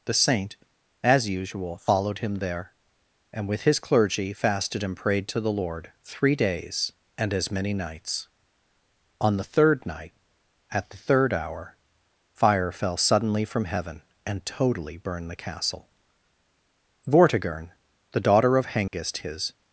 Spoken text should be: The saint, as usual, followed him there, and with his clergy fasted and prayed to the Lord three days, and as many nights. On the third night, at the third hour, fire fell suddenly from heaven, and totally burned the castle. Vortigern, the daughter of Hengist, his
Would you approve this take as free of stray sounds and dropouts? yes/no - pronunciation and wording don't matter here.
no